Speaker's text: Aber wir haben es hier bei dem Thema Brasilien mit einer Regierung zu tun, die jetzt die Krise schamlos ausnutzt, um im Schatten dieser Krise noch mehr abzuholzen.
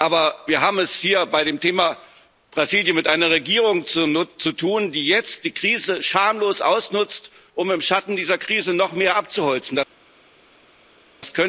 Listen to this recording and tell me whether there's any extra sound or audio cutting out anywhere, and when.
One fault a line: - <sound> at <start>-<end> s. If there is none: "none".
none